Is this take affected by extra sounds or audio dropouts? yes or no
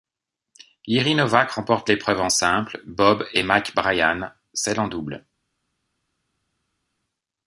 no